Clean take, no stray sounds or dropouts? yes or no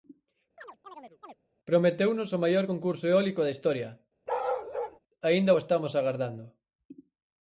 no